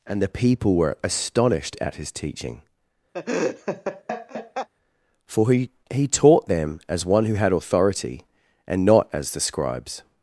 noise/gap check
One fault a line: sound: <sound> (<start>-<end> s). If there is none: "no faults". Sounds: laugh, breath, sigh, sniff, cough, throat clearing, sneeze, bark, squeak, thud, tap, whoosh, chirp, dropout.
sound: laugh (3.1-4.7 s)